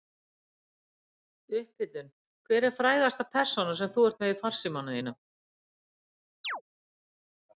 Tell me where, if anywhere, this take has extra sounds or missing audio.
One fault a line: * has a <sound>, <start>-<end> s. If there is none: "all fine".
* has a chirp, 6.4-6.6 s